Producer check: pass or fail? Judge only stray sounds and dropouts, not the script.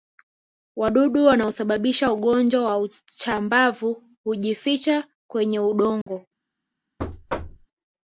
fail